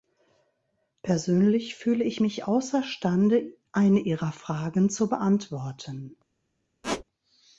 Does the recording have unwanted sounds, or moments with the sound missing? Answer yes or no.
yes